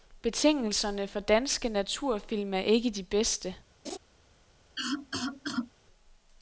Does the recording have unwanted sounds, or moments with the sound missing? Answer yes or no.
yes